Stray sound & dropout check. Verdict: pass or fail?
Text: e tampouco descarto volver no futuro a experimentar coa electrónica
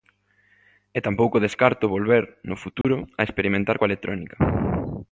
fail